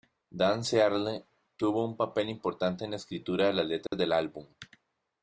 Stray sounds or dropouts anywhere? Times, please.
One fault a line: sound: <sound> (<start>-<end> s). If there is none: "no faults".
sound: dropout (3.9-3.9 s)